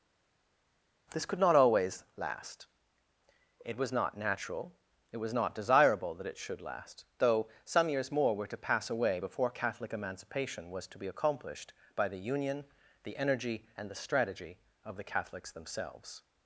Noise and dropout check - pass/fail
pass